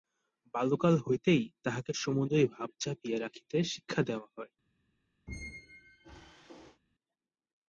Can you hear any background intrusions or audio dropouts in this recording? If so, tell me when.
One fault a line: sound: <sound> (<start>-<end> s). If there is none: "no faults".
sound: squeak (5.3-6.8 s)